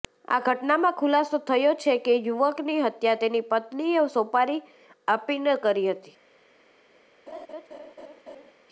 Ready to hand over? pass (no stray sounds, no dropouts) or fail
fail